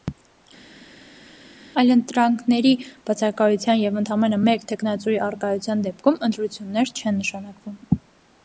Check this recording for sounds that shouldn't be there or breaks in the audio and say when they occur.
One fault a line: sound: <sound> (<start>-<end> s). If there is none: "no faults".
no faults